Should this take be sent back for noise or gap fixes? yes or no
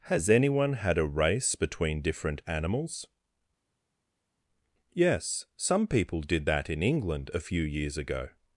no